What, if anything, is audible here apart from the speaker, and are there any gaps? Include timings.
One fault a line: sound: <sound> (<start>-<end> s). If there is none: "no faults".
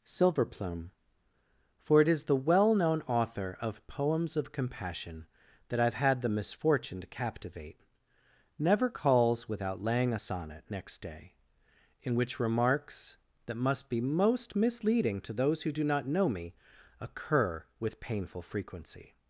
no faults